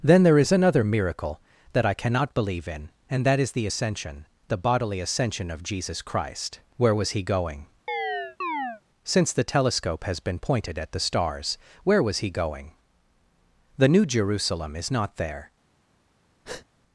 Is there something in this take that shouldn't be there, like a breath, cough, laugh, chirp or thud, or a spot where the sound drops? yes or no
yes